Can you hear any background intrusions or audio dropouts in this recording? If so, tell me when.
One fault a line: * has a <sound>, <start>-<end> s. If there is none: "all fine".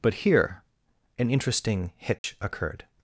* has a dropout, 2.2-2.2 s